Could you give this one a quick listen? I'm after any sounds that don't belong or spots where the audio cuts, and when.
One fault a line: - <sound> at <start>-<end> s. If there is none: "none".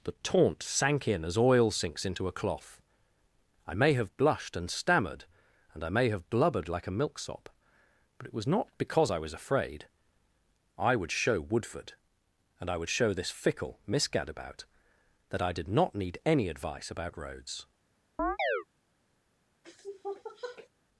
- chirp at 18.2-18.6 s
- sniff at 19.6-20.7 s